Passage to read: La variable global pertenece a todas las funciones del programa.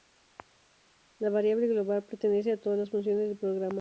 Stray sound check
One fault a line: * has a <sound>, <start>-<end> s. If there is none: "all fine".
all fine